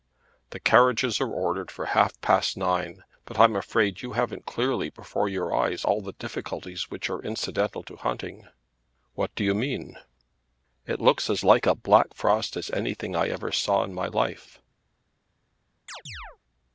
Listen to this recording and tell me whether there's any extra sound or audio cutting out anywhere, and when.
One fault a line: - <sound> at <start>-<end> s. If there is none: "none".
- chirp at 15.9-16.4 s